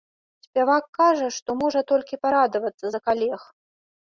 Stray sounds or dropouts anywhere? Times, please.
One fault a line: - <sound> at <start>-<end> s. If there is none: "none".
none